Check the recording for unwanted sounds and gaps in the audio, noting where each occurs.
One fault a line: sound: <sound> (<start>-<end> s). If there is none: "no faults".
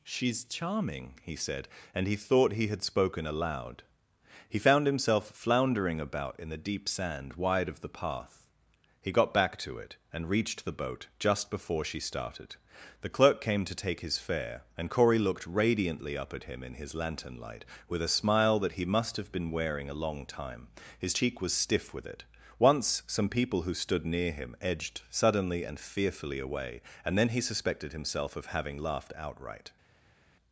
no faults